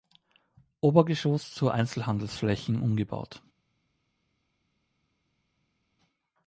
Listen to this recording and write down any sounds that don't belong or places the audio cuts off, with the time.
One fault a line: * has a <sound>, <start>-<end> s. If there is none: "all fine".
all fine